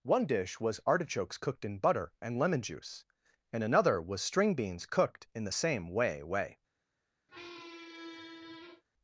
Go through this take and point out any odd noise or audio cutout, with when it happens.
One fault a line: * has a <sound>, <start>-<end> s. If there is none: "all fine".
* has a squeak, 7.3-8.8 s